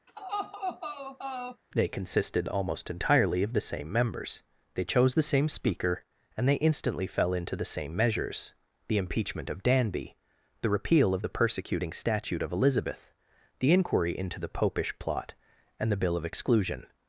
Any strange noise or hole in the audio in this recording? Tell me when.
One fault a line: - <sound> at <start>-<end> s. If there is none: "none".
- laugh at 0.1-1.6 s